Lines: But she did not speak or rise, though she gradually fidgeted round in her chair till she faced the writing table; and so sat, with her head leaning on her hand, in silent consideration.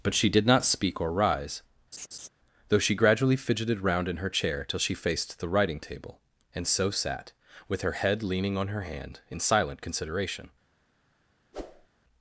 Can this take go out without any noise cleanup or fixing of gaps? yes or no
no